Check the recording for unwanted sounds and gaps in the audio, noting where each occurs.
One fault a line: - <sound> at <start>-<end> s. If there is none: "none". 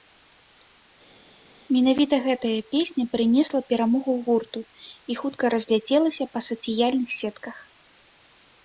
none